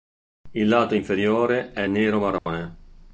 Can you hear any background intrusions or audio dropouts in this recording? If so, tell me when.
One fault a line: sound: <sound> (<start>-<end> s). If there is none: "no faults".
sound: dropout (2.4-2.5 s)